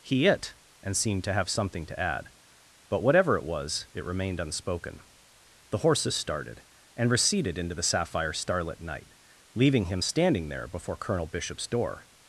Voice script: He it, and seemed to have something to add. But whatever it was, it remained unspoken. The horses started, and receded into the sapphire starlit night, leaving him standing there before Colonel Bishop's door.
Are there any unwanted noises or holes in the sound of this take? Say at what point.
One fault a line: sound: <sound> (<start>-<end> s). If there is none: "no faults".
no faults